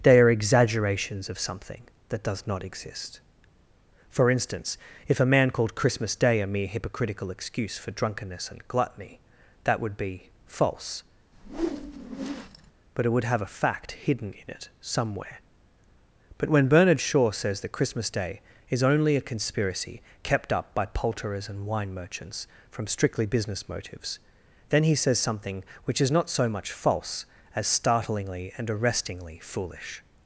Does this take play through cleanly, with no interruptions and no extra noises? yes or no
no